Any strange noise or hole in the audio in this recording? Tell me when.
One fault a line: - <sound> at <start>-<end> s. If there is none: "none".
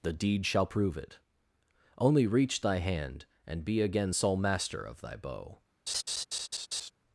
- laugh at 5.9-6.9 s